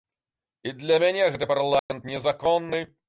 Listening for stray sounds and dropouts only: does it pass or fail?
fail